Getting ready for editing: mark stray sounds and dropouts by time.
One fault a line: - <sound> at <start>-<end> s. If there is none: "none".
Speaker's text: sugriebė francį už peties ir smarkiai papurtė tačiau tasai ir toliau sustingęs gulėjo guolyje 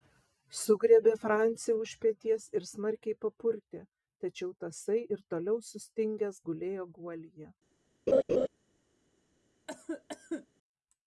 - laugh at 8.1-8.5 s
- cough at 9.7-10.5 s